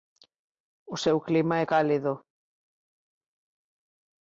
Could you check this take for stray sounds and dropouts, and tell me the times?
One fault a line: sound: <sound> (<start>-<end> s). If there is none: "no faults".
no faults